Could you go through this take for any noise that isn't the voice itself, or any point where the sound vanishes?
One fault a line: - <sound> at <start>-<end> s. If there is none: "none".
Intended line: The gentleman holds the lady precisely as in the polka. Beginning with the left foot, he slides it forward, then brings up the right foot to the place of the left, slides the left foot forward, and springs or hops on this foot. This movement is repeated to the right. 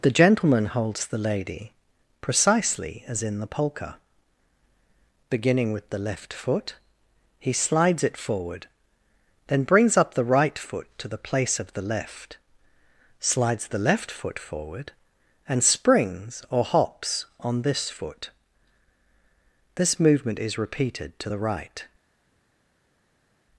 none